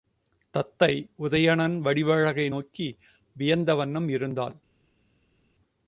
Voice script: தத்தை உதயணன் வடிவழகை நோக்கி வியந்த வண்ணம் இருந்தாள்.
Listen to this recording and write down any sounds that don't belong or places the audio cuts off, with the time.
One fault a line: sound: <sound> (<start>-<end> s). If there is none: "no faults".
no faults